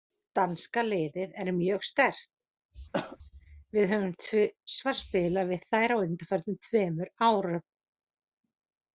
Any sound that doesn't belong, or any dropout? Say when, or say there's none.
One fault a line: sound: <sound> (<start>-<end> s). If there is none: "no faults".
sound: cough (2.9-3.2 s)